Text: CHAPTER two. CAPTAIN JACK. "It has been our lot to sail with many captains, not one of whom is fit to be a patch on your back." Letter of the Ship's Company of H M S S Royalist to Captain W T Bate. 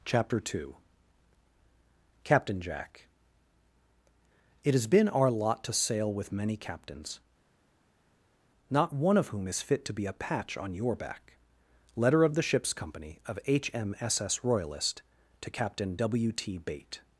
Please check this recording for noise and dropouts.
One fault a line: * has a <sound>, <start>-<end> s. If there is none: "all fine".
all fine